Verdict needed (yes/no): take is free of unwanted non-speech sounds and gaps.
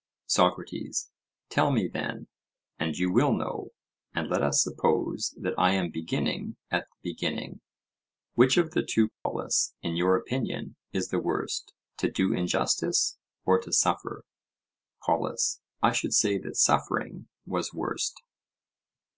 no